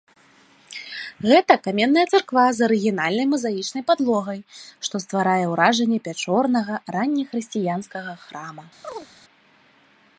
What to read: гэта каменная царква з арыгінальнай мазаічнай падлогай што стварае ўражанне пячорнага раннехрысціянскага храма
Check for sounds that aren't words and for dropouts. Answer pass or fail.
fail